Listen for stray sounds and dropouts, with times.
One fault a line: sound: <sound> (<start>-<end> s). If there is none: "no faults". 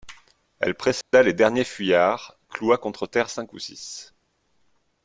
sound: dropout (1.0-1.1 s)